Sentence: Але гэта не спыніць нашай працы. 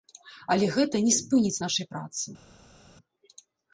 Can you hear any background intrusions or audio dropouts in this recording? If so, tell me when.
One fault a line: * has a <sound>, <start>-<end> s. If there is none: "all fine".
all fine